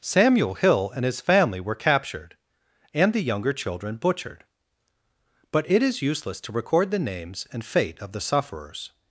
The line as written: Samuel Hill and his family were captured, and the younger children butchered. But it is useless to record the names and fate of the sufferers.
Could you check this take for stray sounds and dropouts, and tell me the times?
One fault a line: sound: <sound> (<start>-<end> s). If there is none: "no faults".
no faults